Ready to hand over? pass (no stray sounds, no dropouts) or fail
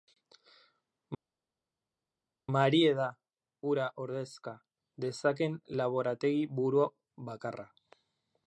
pass